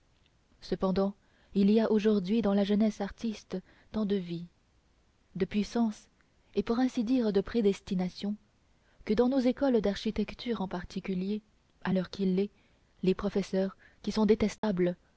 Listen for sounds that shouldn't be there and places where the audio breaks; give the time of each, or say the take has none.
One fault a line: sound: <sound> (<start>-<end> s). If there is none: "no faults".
sound: dropout (14.6-14.6 s)